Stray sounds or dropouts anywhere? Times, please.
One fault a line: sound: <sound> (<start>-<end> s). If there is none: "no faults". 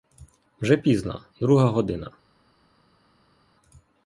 no faults